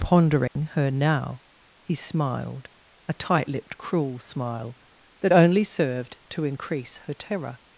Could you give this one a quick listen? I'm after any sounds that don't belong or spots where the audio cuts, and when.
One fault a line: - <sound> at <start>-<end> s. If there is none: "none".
- dropout at 0.5-0.6 s